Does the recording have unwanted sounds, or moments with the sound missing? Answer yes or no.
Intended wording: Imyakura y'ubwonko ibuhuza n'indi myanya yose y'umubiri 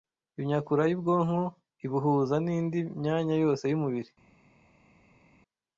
no